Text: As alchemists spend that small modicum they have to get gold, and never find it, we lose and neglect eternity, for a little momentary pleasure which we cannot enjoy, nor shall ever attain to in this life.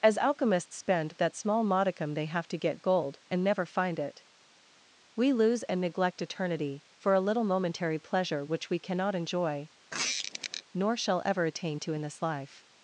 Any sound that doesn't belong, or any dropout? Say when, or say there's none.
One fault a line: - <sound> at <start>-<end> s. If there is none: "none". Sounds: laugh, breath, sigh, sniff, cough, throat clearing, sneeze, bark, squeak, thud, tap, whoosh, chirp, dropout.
- squeak at 9.9-10.6 s